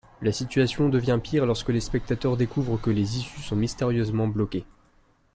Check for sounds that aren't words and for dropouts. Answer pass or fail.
pass